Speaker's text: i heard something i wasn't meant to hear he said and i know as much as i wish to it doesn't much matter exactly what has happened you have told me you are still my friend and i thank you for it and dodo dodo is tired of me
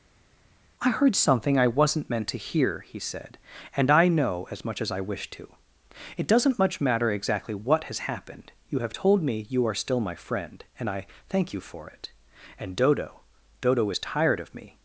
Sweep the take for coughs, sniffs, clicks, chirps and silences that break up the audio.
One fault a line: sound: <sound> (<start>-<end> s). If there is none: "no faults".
no faults